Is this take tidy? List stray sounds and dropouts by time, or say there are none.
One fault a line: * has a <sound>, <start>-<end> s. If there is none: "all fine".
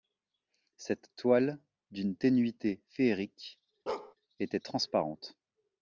* has a bark, 3.9-4.1 s